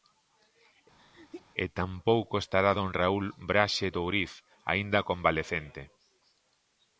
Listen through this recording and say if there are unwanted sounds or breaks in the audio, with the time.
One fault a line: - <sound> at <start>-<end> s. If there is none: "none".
- sneeze at 1.0-1.5 s